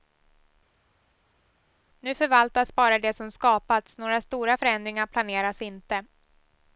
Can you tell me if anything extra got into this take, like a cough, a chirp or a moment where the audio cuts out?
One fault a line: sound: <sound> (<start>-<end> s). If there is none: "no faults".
no faults